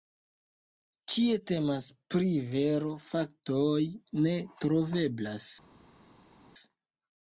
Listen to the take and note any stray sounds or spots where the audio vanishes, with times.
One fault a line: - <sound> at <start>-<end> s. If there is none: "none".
none